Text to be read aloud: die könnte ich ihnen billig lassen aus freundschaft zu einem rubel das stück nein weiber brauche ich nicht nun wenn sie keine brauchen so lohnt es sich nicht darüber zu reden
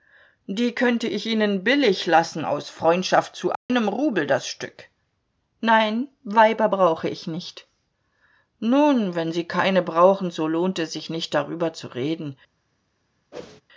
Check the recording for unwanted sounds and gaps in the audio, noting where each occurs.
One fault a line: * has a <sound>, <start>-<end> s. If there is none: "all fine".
* has a dropout, 3.5-3.7 s
* has a whoosh, 13.3-13.6 s